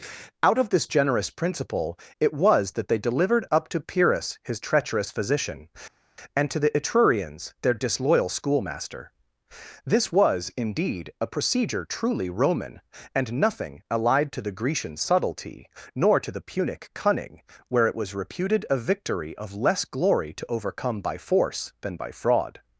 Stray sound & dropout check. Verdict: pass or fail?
pass